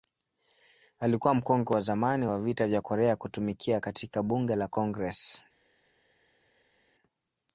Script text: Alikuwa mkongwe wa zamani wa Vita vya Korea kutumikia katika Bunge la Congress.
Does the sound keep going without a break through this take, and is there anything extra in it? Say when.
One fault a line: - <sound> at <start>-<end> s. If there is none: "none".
none